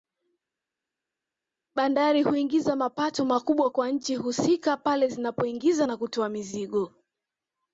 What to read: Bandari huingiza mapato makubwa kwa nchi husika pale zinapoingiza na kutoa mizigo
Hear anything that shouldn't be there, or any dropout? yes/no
no